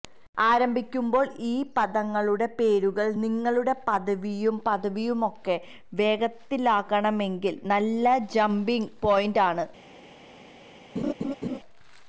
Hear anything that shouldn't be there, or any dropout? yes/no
yes